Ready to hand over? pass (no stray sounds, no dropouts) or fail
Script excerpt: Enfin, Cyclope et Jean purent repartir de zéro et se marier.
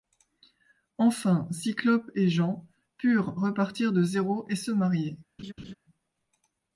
fail